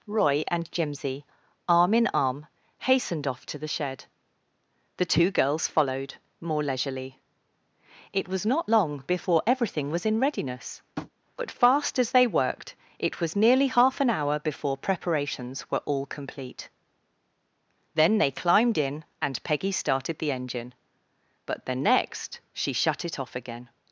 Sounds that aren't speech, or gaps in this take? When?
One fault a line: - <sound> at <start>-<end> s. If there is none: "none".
- tap at 11.0-11.1 s